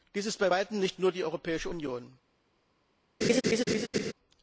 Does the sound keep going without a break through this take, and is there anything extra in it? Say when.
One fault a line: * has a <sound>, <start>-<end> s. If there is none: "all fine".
* has a laugh, 3.2-4.1 s